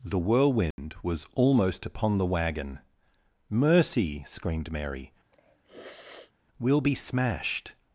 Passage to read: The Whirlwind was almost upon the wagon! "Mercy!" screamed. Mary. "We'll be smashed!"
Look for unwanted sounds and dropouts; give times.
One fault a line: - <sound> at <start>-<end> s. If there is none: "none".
- dropout at 0.7-0.8 s
- sniff at 5.3-6.3 s